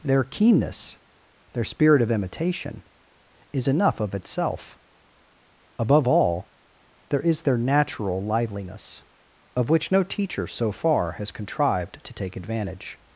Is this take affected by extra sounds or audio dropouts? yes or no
no